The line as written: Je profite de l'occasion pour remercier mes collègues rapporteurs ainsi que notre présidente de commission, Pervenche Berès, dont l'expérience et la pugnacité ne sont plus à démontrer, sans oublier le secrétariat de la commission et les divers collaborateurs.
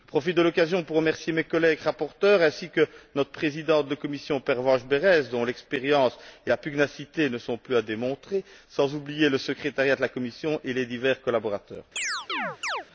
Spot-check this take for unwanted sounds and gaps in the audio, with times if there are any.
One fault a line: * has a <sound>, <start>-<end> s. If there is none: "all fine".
* has a chirp, 12.0-12.9 s